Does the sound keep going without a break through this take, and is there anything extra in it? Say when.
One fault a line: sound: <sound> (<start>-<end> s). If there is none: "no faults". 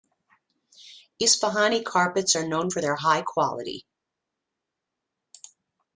no faults